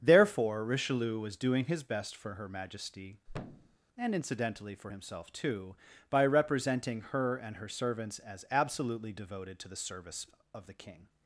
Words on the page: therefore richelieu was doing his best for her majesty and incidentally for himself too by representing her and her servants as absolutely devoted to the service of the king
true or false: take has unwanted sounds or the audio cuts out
true